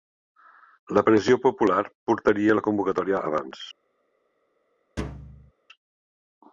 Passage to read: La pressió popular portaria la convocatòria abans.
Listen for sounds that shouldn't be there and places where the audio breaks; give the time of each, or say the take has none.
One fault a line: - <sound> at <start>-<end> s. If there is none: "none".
- thud at 5.0-5.5 s